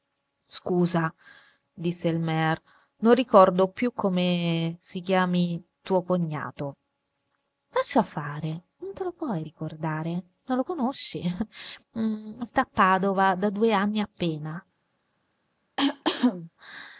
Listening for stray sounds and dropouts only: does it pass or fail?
fail